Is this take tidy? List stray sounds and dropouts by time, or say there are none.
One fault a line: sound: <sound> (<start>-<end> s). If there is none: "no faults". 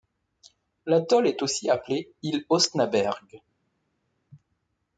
no faults